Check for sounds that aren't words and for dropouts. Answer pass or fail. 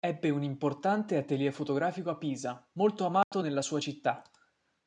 fail